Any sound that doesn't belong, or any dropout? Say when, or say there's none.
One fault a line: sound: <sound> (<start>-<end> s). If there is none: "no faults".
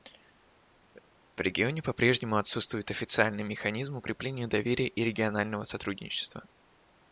no faults